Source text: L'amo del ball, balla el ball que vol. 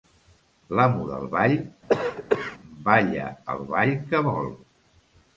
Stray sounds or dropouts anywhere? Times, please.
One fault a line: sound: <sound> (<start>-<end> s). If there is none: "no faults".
sound: cough (1.9-2.6 s)